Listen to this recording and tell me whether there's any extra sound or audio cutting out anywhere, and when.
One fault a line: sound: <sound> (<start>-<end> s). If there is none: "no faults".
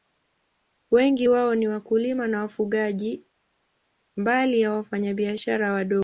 no faults